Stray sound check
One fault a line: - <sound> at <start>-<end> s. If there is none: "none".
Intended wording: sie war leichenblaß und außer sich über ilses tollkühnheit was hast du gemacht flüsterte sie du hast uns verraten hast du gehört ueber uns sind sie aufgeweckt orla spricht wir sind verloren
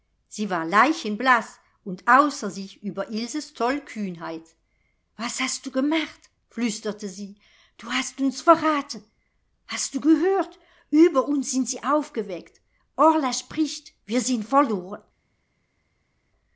none